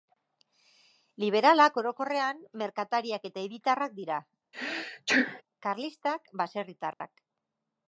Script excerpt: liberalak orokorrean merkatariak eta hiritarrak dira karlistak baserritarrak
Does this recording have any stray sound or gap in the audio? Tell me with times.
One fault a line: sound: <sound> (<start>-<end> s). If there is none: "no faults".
sound: sneeze (4.5-5.4 s)
sound: dropout (6.9-7.0 s)